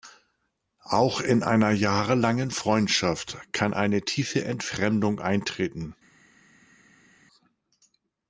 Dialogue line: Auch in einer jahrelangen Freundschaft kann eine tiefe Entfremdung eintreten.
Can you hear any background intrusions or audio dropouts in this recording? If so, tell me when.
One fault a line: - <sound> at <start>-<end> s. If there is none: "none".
none